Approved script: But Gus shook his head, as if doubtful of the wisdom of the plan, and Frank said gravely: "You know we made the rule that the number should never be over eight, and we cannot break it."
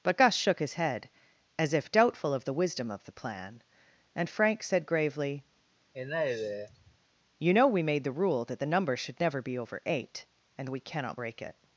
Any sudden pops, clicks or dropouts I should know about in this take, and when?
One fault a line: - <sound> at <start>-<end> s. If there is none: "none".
- sigh at 5.9-7.0 s